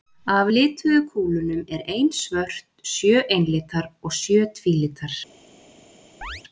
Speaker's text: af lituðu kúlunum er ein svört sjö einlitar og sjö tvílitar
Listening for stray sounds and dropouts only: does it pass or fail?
fail